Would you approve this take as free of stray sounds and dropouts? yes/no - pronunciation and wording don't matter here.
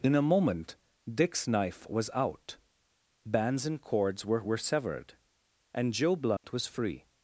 no